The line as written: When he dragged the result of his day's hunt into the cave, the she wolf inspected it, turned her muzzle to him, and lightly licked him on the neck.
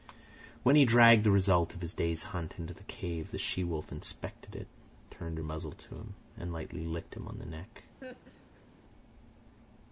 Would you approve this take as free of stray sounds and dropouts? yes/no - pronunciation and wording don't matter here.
no